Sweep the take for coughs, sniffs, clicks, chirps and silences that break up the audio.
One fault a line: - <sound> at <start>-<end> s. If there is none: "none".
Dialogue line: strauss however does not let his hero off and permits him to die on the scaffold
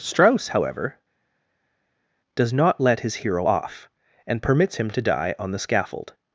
none